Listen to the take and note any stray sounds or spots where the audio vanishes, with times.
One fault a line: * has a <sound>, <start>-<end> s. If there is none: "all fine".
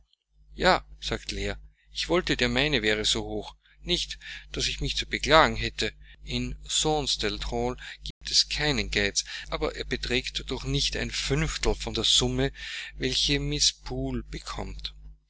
* has a dropout, 8.1-8.2 s